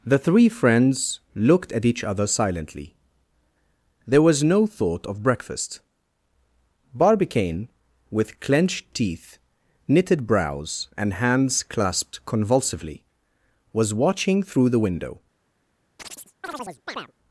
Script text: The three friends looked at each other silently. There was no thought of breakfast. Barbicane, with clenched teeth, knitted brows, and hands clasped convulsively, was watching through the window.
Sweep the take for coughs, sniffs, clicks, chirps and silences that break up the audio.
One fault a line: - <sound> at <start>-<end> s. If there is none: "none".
- chirp at 16.0-17.1 s